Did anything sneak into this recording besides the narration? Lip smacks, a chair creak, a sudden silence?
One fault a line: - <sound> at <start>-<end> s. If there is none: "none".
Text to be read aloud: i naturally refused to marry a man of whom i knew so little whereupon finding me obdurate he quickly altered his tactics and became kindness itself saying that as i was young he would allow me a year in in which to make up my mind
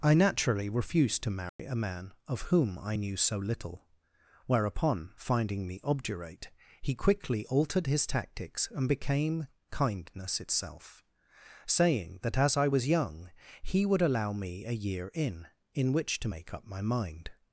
- dropout at 1.5-1.6 s